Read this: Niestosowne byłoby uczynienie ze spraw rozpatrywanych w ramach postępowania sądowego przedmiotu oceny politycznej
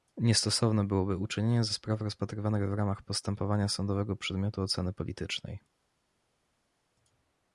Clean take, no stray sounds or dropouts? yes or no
yes